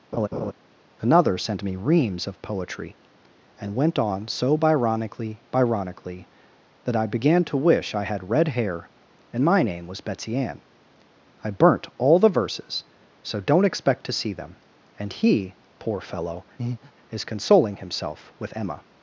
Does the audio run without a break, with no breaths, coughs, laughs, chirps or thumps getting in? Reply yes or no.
no